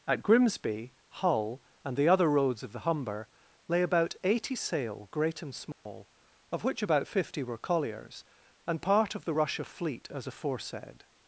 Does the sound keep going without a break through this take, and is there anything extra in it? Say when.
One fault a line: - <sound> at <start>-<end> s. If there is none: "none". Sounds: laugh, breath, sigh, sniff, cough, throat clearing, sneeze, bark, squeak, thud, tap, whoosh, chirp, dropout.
- dropout at 5.7-5.9 s